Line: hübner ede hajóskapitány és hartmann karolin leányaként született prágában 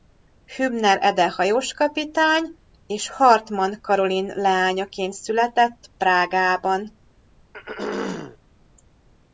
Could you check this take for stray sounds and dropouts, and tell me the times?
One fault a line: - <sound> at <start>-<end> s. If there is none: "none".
- throat clearing at 7.5-8.4 s